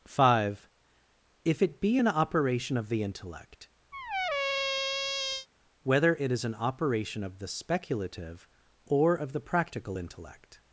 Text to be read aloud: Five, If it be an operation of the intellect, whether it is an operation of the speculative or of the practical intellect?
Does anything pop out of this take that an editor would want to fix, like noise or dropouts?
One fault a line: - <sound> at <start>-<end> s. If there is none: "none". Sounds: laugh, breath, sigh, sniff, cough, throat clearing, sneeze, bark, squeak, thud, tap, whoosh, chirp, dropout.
- squeak at 3.9-5.5 s